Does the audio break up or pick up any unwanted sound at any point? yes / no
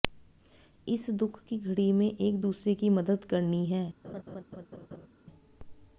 yes